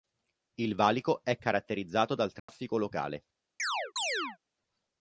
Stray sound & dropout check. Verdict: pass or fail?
fail